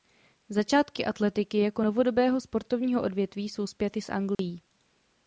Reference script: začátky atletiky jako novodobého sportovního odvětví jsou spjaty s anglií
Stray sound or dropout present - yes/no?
yes